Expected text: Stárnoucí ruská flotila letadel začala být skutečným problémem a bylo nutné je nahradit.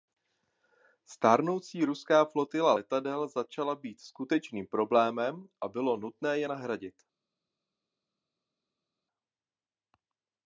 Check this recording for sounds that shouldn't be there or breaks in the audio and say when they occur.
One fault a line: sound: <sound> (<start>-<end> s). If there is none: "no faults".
no faults